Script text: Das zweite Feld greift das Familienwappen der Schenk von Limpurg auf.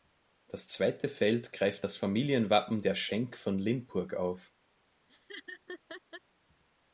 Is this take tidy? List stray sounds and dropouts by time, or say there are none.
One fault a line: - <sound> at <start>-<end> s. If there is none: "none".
- laugh at 5.1-6.2 s